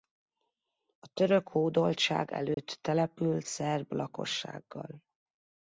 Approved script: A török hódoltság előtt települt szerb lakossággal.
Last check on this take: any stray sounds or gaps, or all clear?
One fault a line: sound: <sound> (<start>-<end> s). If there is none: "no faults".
sound: dropout (2.5-2.6 s)